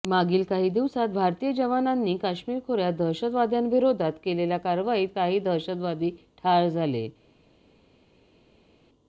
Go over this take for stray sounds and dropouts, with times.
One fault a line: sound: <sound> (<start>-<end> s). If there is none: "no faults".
no faults